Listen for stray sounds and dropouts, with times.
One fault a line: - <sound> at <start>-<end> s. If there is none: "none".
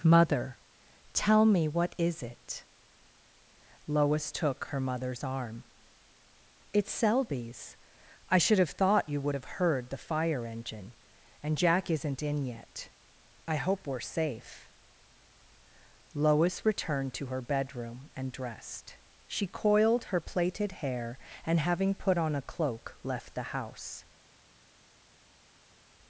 none